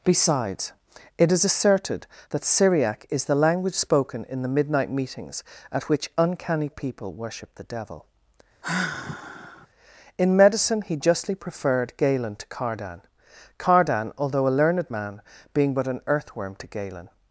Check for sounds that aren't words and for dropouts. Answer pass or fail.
fail